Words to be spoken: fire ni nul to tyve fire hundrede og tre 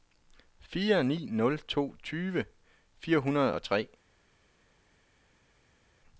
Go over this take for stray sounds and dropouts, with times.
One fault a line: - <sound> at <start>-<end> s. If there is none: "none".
none